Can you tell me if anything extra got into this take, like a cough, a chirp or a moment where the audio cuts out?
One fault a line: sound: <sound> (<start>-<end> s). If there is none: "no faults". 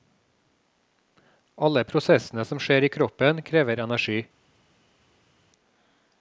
no faults